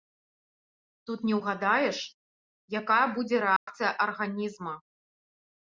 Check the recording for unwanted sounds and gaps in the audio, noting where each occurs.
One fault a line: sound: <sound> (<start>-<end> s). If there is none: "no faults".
sound: dropout (3.6-3.7 s)